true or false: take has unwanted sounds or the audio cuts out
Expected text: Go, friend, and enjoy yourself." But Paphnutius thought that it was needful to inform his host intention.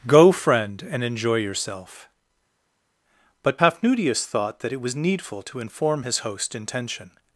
false